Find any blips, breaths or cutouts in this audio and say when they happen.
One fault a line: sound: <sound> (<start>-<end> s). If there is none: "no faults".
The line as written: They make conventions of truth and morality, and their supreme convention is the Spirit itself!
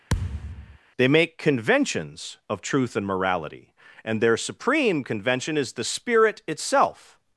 sound: thud (0.1-0.8 s)